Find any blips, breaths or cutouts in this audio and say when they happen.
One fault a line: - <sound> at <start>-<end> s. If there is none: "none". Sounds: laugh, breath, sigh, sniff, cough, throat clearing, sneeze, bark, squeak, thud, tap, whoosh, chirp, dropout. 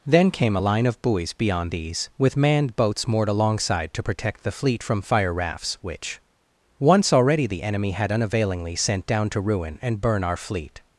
none